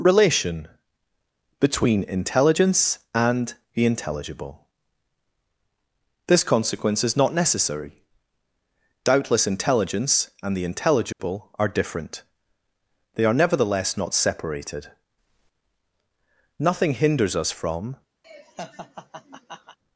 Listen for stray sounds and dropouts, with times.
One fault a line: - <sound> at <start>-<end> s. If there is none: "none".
- dropout at 11.1-11.2 s
- laugh at 18.2-19.8 s